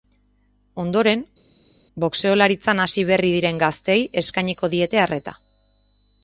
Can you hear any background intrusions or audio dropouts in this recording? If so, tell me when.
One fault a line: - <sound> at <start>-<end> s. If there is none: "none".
none